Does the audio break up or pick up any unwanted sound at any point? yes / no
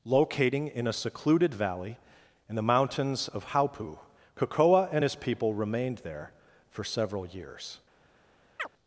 yes